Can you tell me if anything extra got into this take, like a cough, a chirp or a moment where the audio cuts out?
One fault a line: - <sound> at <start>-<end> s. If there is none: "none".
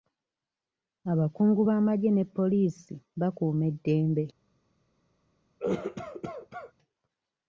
- cough at 5.6-6.7 s